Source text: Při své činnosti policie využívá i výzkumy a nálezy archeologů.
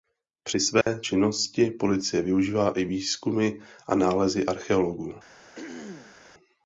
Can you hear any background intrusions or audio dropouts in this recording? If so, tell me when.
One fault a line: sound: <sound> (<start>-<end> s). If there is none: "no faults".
sound: dropout (0.8-0.9 s)
sound: throat clearing (5.6-6.2 s)